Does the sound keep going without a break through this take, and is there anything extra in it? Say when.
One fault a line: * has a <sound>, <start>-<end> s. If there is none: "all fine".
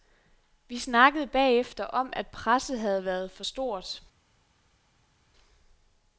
all fine